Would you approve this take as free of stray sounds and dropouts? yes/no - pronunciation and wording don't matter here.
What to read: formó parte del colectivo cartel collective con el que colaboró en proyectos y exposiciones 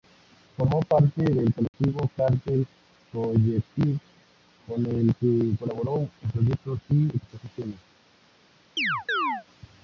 no